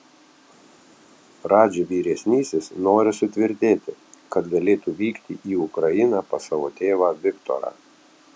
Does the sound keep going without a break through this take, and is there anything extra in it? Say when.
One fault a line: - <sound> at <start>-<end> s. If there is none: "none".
none